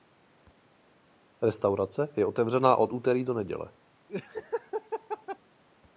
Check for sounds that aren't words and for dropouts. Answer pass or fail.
fail